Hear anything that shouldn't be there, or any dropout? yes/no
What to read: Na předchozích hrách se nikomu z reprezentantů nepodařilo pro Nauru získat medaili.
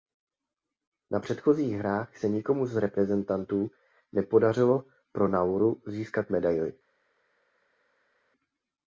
no